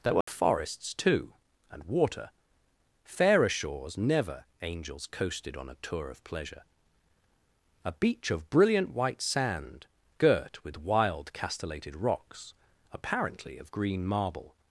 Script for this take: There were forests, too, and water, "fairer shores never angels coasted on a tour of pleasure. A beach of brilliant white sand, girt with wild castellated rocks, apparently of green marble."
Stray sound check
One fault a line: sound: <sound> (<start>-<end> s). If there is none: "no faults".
sound: dropout (0.2-0.3 s)